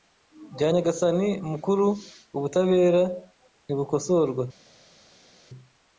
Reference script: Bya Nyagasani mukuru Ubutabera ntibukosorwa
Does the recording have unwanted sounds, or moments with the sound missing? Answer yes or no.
no